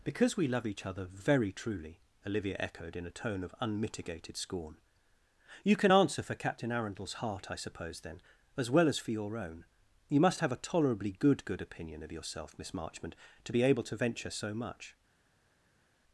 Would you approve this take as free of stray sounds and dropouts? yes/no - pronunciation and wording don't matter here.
yes